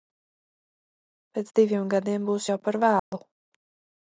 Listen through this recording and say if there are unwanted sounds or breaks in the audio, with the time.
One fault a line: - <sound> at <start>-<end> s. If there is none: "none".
- dropout at 3.0-3.1 s